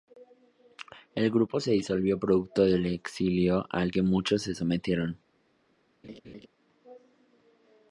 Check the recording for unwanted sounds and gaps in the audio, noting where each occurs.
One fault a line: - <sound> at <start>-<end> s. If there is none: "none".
- laugh at 6.0-6.5 s